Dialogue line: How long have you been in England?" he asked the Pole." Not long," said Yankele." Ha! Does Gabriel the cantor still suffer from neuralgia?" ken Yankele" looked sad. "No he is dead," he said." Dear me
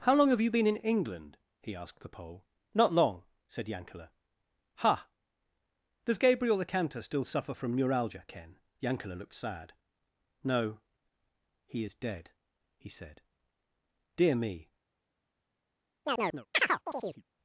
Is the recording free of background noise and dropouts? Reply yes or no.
no